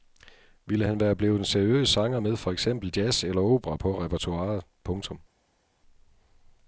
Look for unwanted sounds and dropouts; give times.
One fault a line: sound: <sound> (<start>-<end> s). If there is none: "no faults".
no faults